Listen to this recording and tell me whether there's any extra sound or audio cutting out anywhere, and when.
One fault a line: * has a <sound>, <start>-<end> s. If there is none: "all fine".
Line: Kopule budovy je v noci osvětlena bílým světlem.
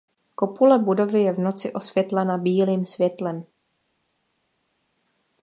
all fine